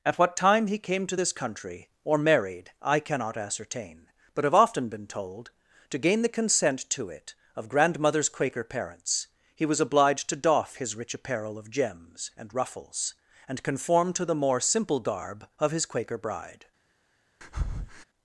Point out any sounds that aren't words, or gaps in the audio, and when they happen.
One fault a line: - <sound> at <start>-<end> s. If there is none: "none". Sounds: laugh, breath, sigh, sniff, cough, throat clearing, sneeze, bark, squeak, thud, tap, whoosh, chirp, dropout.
- breath at 17.4-18.0 s